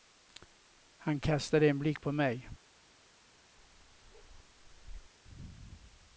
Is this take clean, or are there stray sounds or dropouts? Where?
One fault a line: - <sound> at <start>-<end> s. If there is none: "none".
- bark at 3.6-5.1 s